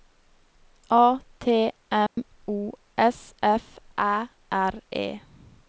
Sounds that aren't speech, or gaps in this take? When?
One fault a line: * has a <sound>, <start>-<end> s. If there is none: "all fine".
* has a dropout, 2.1-2.2 s